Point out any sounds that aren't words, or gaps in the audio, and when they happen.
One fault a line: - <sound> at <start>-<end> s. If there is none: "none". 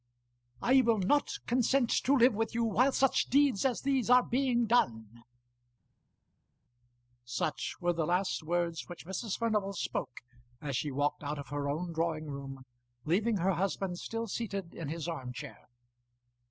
none